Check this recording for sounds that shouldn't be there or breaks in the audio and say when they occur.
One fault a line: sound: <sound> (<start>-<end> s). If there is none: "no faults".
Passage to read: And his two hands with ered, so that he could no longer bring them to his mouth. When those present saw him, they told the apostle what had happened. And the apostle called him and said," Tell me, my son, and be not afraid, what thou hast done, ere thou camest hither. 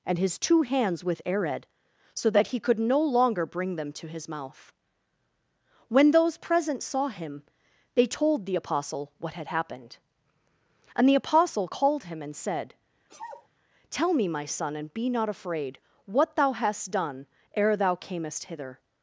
sound: sneeze (13.1-13.5 s)